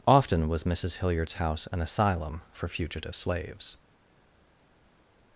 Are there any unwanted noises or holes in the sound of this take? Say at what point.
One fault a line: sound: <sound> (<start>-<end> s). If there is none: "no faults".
no faults